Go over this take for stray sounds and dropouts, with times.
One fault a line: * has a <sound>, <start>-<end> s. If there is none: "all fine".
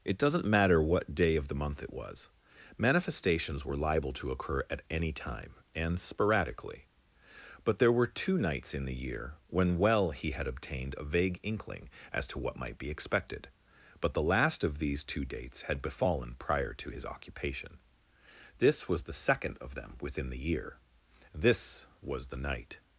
all fine